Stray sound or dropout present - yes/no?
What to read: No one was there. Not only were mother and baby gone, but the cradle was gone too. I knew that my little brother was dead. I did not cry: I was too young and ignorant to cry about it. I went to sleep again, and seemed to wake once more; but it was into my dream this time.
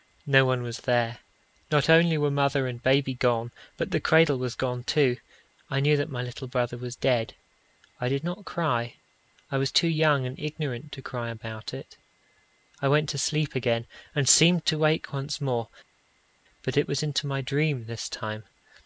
no